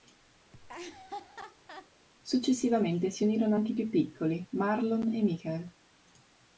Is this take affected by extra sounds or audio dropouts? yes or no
yes